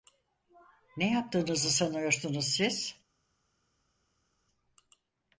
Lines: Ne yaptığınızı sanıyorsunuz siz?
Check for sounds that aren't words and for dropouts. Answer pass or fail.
pass